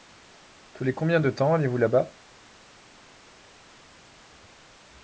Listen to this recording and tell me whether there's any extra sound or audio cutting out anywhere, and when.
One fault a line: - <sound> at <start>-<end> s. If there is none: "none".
none